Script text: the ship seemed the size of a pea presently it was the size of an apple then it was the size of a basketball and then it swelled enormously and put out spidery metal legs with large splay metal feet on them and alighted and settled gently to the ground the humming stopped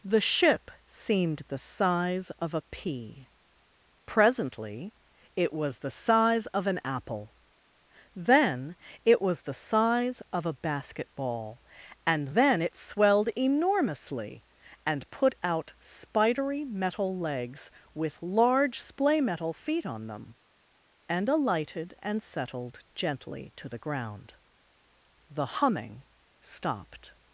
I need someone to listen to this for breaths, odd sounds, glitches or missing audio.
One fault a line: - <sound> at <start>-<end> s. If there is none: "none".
none